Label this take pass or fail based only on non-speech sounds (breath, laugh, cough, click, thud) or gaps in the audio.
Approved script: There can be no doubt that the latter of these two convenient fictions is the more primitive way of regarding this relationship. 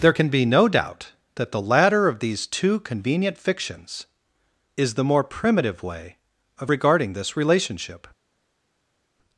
pass